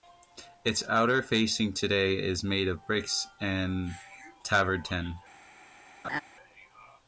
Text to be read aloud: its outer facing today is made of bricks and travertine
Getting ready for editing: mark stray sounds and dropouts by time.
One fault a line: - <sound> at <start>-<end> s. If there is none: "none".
- laugh at 6.0-6.2 s